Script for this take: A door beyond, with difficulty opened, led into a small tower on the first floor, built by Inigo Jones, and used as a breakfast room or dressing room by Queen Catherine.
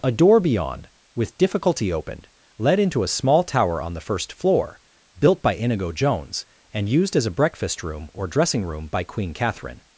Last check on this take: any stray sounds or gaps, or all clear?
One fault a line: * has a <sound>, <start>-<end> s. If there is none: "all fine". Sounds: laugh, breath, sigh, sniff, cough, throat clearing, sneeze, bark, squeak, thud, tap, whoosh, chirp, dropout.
all fine